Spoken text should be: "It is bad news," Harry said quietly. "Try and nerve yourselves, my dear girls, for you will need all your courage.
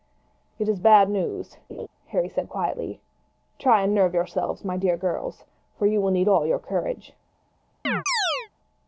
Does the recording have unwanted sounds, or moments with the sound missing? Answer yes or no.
yes